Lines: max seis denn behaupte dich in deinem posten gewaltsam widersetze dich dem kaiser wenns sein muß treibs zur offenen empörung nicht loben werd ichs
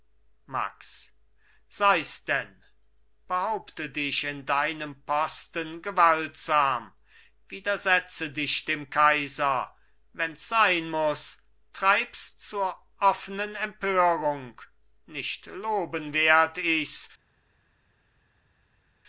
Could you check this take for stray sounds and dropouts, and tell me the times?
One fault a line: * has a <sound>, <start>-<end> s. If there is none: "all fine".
all fine